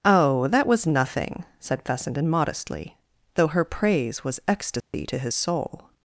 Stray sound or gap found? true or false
true